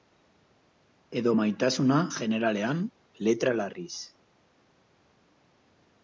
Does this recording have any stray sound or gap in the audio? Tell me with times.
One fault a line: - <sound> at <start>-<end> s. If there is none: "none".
none